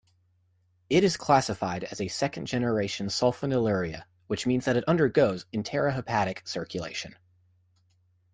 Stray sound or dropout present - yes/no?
no